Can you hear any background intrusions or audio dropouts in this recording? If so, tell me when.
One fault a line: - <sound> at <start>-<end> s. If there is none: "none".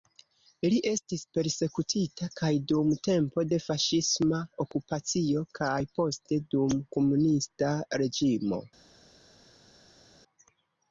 none